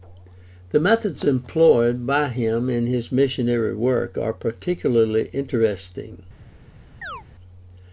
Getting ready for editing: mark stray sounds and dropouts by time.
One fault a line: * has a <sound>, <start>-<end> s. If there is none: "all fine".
* has a chirp, 7.0-7.2 s